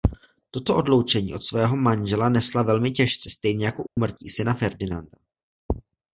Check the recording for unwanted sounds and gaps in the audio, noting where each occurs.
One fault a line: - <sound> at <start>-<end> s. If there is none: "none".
- dropout at 3.9-4.0 s